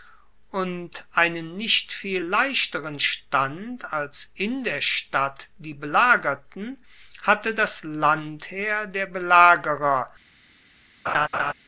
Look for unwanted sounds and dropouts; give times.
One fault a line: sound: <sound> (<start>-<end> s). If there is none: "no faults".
sound: laugh (11.1-11.5 s)